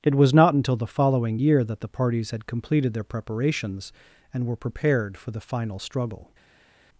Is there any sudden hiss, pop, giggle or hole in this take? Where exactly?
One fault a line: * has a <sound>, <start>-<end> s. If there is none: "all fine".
all fine